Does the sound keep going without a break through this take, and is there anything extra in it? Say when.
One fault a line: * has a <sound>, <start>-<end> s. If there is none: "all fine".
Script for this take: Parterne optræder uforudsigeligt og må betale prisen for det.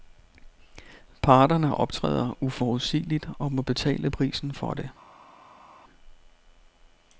all fine